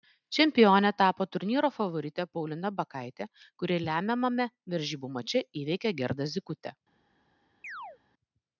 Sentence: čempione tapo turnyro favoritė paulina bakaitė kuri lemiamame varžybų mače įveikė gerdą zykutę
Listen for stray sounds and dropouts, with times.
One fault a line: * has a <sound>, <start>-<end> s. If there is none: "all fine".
* has a chirp, 7.6-8.0 s